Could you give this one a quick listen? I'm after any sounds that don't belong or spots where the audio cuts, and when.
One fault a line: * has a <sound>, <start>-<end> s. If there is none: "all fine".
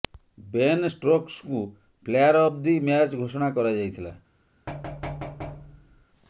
* has a thud, 4.7-6.1 s